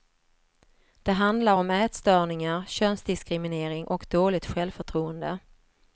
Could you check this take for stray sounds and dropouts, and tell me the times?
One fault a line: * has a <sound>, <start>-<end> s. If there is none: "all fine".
all fine